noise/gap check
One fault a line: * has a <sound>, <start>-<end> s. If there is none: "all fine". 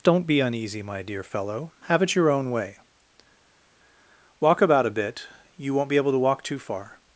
all fine